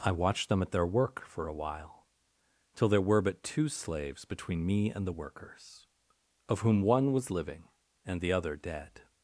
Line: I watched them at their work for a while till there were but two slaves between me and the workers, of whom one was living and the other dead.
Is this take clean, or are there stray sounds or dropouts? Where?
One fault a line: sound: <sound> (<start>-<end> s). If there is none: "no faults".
no faults